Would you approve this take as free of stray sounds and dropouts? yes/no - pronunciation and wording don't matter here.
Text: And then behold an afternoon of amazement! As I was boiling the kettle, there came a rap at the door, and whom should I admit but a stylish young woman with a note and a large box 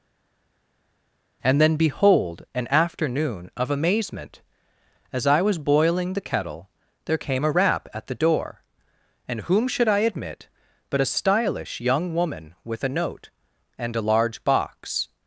yes